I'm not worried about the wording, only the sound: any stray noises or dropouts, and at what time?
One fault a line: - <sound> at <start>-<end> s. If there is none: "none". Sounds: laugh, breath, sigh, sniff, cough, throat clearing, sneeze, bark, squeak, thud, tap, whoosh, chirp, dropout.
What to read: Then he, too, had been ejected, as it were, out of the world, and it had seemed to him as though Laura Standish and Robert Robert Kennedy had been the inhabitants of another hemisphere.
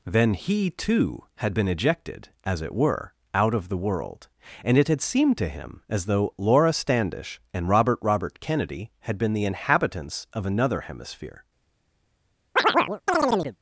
- chirp at 12.6-13.6 s